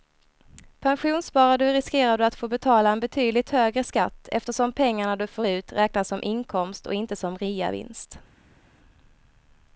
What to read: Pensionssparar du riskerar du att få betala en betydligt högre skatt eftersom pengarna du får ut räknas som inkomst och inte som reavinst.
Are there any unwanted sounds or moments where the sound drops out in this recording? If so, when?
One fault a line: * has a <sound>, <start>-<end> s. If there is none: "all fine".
all fine